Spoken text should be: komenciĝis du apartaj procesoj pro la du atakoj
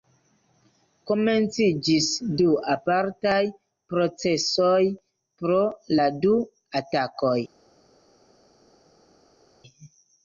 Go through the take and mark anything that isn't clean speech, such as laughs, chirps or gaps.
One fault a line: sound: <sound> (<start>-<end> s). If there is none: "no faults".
no faults